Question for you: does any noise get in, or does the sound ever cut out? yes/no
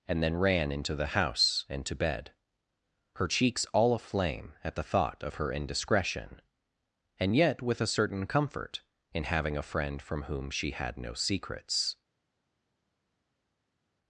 no